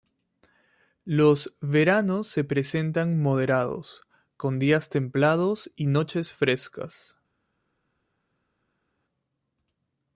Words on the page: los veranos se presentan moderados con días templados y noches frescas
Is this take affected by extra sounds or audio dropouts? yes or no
no